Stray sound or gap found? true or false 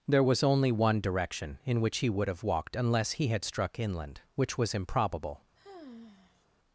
true